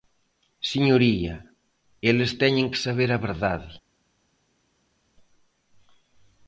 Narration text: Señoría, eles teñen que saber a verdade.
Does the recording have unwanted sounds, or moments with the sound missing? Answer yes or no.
no